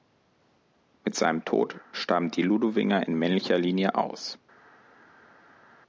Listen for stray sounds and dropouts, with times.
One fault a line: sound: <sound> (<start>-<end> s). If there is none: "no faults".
no faults